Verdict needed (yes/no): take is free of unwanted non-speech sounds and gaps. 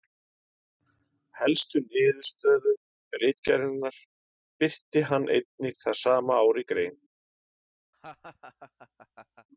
no